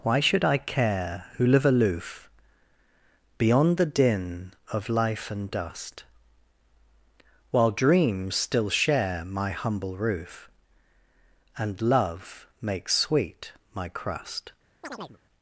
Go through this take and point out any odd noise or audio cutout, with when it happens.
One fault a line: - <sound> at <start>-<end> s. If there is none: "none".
- chirp at 14.8-15.2 s